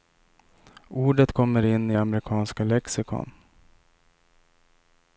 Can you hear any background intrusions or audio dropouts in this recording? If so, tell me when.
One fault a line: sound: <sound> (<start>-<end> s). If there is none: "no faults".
no faults